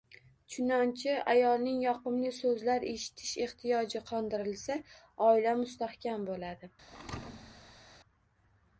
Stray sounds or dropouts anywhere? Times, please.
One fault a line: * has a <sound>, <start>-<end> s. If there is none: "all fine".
* has a thud, 6.9-8.0 s